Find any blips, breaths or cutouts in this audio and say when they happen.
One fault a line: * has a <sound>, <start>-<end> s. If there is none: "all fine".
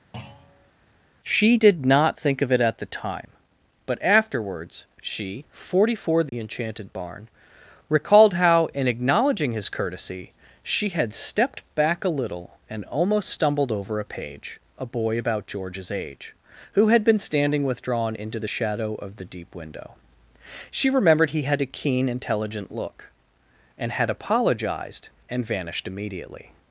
* has a thud, 0.1-0.7 s
* has a dropout, 6.3-6.3 s